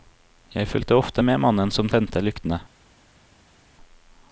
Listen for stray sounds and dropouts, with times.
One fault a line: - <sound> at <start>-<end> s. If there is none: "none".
none